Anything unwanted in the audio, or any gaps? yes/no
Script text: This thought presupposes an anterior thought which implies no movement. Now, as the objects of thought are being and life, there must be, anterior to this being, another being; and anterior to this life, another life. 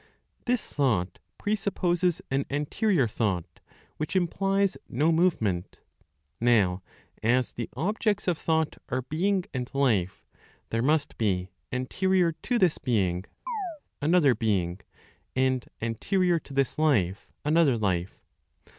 yes